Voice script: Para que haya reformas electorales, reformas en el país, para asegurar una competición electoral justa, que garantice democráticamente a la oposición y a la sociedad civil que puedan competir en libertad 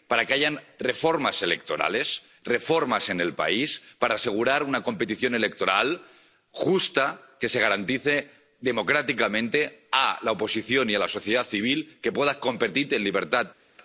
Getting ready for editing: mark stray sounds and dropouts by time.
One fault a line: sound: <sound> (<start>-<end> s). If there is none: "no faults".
no faults